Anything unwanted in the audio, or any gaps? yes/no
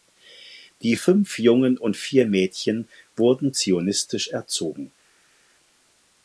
no